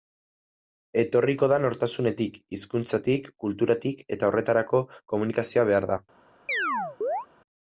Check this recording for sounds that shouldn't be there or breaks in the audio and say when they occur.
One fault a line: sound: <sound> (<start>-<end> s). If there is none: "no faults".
sound: chirp (6.5-7.3 s)